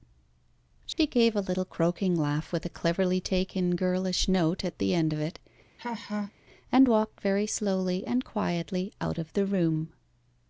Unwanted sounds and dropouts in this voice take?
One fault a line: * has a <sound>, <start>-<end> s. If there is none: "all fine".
* has a dropout, 0.9-1.0 s
* has a laugh, 5.8-6.3 s